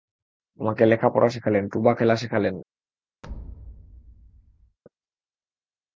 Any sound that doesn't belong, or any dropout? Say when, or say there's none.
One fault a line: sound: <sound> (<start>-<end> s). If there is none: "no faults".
sound: thud (3.2-4.8 s)